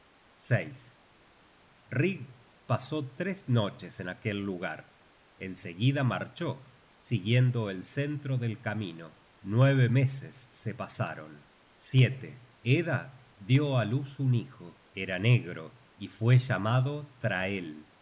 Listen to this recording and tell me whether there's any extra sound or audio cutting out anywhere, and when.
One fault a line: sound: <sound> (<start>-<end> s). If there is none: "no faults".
no faults